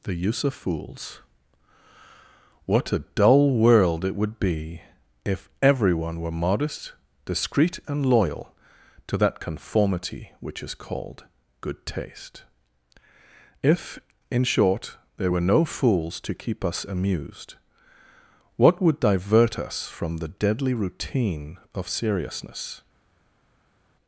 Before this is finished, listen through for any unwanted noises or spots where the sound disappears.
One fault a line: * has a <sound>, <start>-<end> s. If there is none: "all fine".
all fine